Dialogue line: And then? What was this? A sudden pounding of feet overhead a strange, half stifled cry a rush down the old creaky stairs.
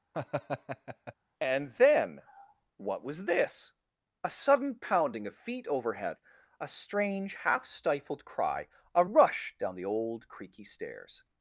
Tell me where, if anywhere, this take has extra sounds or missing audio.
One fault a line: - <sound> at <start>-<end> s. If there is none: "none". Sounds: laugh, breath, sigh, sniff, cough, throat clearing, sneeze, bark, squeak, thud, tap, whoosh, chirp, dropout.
- laugh at 0.1-1.1 s